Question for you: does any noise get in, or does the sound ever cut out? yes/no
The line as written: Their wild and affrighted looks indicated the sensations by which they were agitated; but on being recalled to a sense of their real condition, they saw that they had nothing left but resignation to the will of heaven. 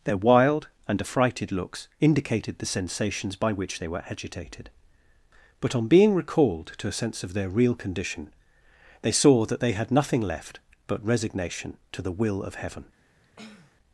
yes